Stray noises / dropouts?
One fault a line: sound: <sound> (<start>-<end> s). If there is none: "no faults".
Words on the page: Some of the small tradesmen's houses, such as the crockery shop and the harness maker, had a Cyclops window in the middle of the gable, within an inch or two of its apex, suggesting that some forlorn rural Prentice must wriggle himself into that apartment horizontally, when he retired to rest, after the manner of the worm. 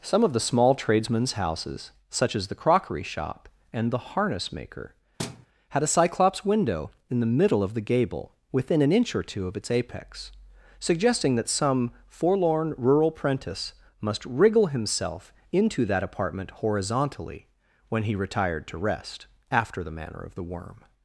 sound: thud (5.2-5.5 s)